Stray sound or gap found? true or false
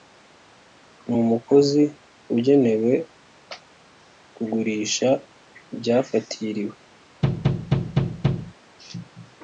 true